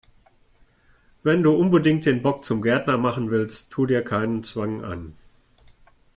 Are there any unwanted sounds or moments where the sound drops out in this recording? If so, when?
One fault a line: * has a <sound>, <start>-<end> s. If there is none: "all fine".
all fine